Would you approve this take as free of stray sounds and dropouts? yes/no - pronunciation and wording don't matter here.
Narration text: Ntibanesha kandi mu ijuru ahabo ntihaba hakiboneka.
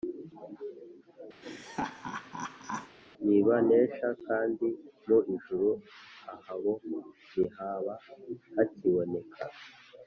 no